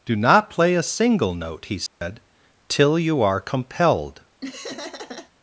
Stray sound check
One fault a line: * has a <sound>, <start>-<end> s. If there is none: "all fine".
* has a dropout, 1.9-2.0 s
* has a laugh, 4.4-5.3 s